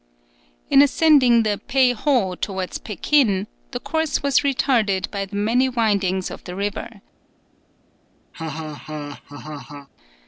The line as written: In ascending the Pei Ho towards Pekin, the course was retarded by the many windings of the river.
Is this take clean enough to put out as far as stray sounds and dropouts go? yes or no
no